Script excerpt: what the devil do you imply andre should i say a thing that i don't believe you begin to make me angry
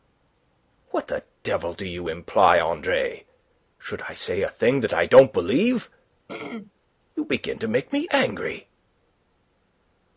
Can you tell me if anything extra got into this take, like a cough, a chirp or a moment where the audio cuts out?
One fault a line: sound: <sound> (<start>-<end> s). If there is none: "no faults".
sound: throat clearing (6.3-6.7 s)